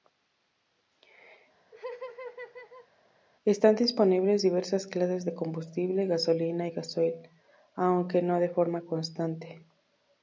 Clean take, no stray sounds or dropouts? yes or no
no